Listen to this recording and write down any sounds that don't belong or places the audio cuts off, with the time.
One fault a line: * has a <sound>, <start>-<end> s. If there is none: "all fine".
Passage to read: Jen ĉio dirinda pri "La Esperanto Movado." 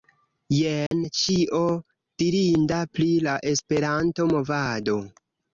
* has a dropout, 0.9-0.9 s